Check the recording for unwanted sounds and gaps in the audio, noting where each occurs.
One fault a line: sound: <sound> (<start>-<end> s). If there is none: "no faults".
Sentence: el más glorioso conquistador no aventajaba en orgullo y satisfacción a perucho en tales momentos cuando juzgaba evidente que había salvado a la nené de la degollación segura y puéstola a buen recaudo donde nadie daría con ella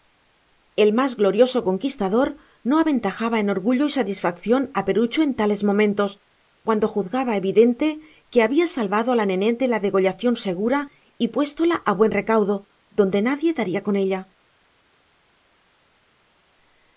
no faults